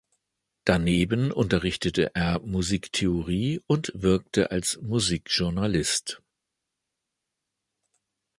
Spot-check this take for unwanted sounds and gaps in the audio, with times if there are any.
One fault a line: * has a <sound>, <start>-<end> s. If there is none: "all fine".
all fine